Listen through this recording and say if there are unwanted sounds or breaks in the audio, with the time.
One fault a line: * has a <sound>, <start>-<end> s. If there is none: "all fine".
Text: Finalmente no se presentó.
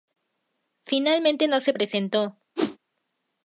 * has a whoosh, 2.6-2.8 s